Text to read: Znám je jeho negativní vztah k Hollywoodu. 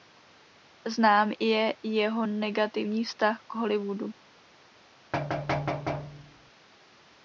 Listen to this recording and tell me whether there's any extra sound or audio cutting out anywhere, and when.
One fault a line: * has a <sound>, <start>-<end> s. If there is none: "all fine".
* has a thud, 5.1-6.5 s